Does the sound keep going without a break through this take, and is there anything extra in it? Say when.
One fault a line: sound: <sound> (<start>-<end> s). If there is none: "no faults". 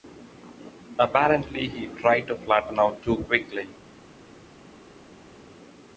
no faults